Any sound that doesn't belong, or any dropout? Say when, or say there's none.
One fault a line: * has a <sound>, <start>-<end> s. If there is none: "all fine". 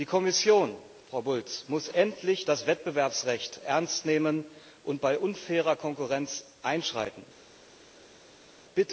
all fine